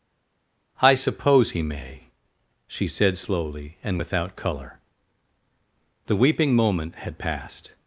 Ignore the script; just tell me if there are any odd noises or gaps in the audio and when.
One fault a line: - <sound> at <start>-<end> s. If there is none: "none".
none